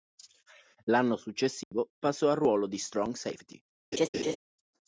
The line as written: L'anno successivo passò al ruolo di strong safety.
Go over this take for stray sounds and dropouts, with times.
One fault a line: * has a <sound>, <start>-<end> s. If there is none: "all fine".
* has a dropout, 1.6-1.7 s
* has a laugh, 3.9-4.4 s